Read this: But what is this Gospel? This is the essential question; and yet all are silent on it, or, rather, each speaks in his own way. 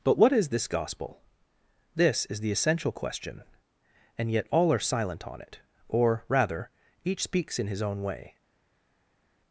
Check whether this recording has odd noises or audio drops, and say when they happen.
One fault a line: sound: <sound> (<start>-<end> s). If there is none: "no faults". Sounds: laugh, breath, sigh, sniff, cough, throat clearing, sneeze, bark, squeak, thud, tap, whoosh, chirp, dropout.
no faults